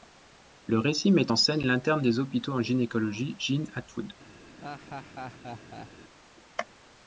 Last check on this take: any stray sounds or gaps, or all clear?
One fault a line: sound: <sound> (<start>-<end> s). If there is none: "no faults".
sound: laugh (4.6-5.9 s)